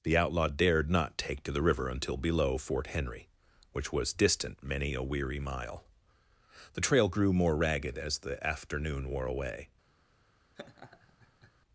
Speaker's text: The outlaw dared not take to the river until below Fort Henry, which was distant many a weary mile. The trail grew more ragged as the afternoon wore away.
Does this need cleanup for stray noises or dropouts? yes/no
yes